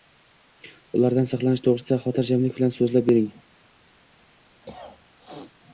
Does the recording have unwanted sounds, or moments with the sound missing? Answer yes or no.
yes